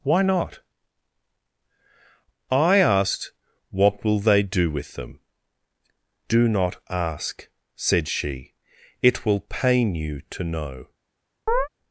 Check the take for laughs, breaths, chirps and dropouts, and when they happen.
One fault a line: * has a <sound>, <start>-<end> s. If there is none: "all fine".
* has a chirp, 11.5-11.7 s